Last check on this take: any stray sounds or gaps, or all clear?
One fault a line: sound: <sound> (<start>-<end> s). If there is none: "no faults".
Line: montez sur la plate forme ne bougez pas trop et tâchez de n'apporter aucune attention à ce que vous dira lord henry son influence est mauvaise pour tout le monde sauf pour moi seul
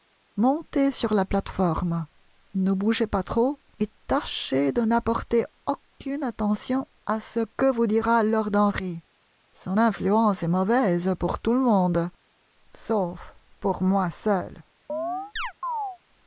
sound: chirp (14.9-16.0 s)